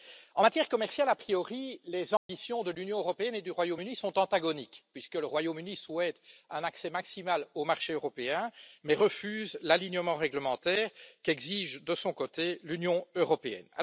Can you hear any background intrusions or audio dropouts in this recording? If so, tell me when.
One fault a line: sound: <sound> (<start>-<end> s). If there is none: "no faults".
sound: dropout (2.2-2.3 s)